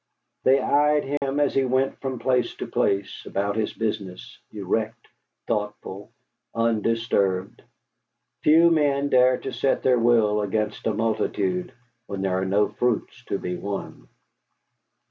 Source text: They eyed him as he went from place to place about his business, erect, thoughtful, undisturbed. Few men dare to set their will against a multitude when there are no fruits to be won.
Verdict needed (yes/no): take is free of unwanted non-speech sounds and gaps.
no